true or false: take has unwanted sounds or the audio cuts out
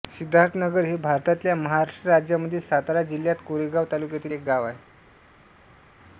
false